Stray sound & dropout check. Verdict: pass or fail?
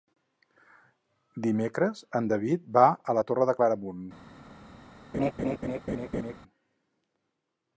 fail